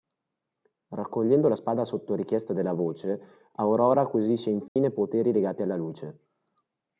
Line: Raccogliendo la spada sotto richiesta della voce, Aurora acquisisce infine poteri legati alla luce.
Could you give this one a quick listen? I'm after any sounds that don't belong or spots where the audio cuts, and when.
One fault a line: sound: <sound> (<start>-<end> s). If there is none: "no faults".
sound: dropout (4.7-4.8 s)